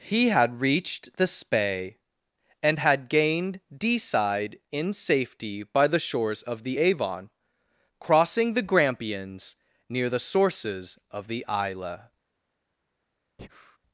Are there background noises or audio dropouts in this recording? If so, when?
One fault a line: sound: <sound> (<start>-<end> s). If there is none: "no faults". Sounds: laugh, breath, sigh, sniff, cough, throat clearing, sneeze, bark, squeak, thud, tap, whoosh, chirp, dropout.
sound: breath (13.4-13.8 s)